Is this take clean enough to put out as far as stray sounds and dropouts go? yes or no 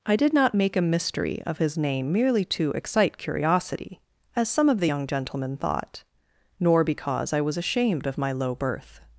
yes